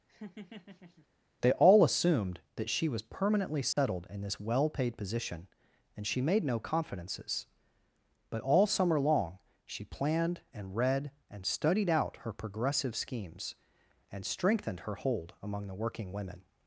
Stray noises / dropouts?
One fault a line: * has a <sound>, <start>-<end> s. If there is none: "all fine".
* has a laugh, 0.1-1.1 s
* has a dropout, 3.7-3.8 s